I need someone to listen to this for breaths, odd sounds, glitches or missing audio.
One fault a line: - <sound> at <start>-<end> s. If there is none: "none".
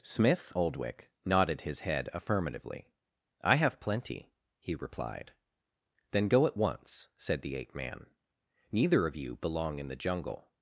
none